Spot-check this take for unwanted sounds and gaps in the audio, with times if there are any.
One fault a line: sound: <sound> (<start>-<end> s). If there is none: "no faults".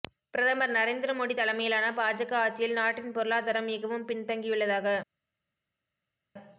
no faults